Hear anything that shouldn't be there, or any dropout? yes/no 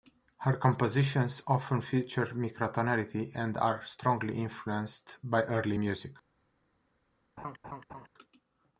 yes